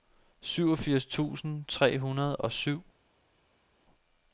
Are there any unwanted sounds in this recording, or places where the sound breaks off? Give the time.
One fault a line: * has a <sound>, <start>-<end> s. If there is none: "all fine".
all fine